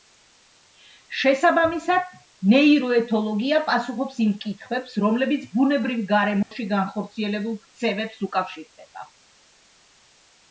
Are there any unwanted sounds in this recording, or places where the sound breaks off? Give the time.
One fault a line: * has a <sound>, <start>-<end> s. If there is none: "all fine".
* has a dropout, 6.4-6.5 s